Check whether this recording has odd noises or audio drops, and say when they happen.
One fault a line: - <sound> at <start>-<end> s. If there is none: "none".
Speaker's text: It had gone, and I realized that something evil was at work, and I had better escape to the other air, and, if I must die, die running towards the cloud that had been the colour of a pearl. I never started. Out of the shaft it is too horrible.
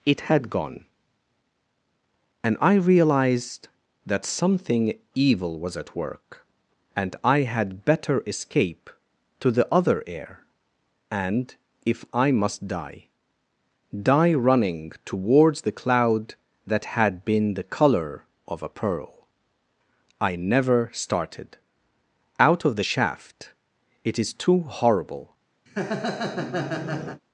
- laugh at 25.7-27.2 s